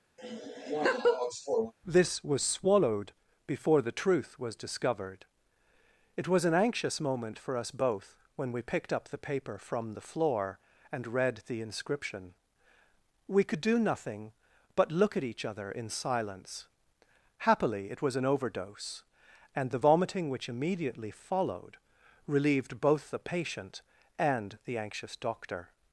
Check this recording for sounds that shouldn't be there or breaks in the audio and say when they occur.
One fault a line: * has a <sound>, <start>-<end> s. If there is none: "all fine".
* has a laugh, 0.2-1.7 s